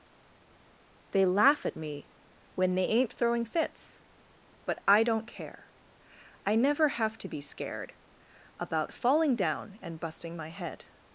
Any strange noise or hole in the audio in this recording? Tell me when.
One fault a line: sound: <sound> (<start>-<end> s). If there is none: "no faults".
no faults